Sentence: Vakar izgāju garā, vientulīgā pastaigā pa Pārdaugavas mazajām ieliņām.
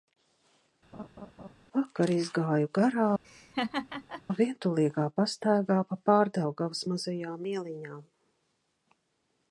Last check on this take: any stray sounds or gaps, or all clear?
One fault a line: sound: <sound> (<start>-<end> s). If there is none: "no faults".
sound: laugh (0.9-1.5 s)
sound: laugh (3.2-4.2 s)